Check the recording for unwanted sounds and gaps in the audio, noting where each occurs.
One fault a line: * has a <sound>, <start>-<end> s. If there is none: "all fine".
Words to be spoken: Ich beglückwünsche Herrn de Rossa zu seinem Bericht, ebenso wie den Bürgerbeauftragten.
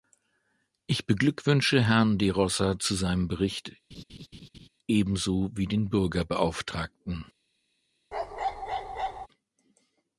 * has a laugh, 3.9-4.7 s
* has a bark, 8.1-9.3 s